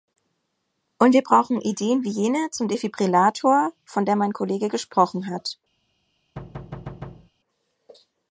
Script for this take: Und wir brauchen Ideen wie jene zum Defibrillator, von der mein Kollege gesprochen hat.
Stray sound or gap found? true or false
true